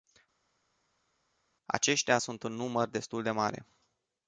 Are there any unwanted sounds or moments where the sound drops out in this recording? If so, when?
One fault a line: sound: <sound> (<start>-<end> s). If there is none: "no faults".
no faults